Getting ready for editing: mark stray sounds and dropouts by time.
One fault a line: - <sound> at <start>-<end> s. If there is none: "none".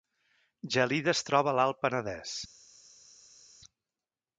none